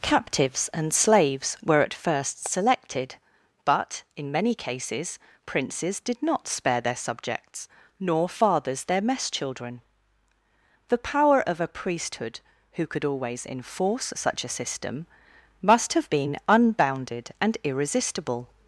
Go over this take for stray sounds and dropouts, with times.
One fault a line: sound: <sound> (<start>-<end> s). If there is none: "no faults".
no faults